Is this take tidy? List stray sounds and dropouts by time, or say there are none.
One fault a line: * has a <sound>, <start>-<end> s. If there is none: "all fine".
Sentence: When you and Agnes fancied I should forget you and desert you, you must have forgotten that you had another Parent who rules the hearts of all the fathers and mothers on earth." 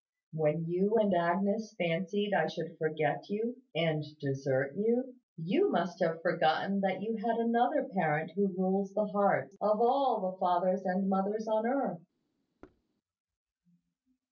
* has a thud, 12.6-12.8 s